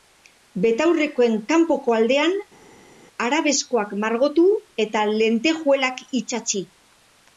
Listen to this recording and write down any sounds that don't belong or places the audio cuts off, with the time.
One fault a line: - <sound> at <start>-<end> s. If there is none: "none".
none